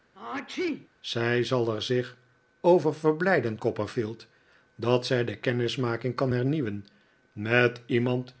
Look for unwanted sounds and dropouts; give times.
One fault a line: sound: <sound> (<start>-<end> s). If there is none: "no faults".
sound: sneeze (0.1-0.9 s)